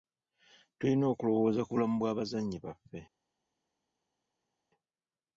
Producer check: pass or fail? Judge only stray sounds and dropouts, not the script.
pass